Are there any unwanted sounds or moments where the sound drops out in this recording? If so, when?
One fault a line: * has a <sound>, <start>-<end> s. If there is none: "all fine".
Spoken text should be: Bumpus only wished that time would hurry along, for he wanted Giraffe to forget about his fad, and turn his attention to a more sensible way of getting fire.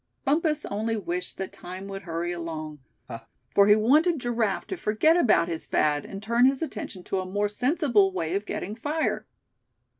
* has a laugh, 3.1-3.3 s